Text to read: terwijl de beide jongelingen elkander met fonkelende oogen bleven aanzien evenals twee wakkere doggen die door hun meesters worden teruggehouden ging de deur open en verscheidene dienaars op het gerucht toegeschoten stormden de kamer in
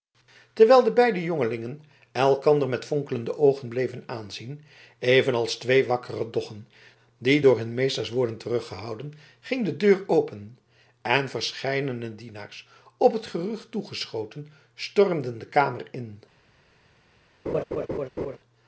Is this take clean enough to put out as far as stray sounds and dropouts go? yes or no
no